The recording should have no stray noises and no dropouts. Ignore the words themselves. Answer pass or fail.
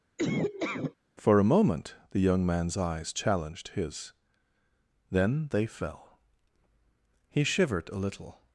fail